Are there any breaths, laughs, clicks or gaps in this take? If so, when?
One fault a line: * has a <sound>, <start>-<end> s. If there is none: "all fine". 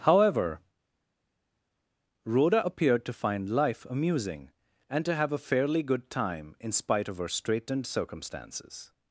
all fine